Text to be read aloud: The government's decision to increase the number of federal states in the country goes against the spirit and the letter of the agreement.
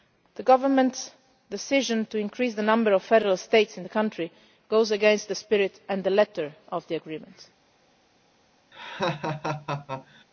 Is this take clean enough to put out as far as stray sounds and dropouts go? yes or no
no